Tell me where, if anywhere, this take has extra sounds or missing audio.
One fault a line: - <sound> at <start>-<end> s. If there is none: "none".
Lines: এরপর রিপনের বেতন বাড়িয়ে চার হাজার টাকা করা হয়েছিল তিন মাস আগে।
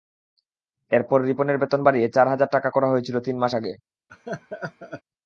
- laugh at 4.1-5.0 s